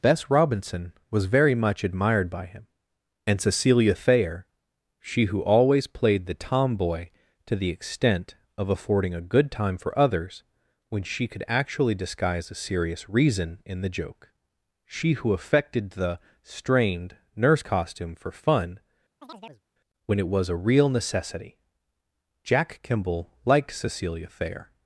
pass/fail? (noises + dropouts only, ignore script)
fail